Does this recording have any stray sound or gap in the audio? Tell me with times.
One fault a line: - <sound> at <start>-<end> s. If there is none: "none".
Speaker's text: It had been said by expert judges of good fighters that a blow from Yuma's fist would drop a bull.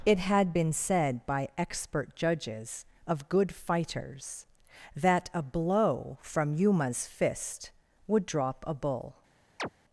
- chirp at 9.6-9.7 s